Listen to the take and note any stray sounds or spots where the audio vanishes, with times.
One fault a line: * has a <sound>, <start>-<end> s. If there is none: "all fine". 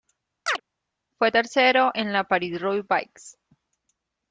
* has a chirp, 0.5-0.6 s